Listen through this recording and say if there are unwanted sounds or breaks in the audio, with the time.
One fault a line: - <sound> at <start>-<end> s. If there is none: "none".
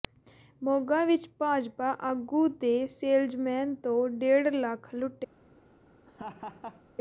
- laugh at 6.1-6.8 s